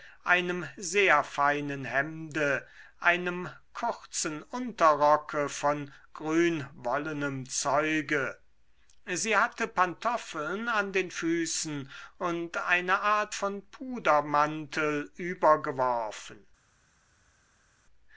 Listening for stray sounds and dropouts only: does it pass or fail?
pass